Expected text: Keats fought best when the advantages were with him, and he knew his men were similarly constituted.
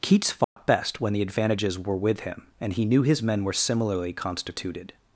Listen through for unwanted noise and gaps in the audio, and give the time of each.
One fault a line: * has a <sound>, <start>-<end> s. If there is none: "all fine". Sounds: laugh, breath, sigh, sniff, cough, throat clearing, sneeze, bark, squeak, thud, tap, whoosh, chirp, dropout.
* has a dropout, 0.4-0.6 s